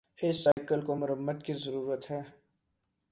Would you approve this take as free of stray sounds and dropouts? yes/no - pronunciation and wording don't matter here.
no